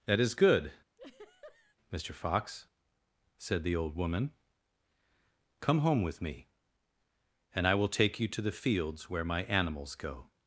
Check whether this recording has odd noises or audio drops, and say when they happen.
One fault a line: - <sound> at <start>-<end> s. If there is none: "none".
- laugh at 1.0-1.8 s